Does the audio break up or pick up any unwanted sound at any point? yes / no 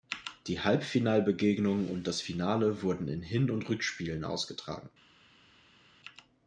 no